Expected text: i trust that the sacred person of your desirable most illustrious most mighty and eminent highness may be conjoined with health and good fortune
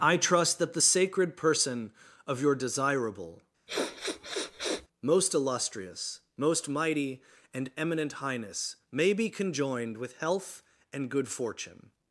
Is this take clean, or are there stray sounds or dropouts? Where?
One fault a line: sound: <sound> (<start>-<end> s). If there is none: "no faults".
sound: sniff (3.7-4.9 s)